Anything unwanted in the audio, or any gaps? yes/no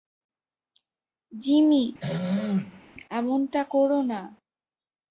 yes